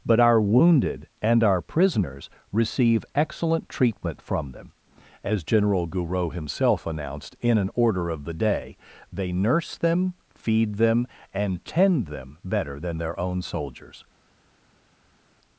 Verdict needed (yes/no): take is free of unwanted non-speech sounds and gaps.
yes